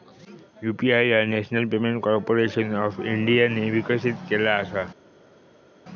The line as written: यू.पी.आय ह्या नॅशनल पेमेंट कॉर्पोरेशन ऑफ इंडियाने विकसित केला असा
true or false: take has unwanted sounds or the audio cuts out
false